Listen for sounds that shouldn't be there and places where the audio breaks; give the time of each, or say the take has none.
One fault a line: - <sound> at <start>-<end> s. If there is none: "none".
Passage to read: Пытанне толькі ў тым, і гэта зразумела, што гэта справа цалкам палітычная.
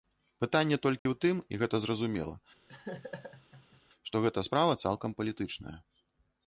- dropout at 1.0-1.1 s
- laugh at 2.7-3.8 s